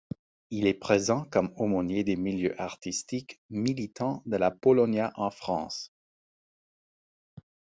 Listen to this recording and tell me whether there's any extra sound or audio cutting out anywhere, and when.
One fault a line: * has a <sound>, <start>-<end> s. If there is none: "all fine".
all fine